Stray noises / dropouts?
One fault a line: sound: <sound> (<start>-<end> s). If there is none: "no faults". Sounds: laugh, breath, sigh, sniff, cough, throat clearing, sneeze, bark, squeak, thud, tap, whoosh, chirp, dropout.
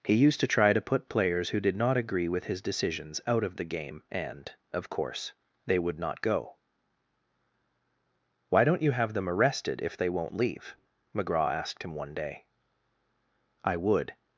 no faults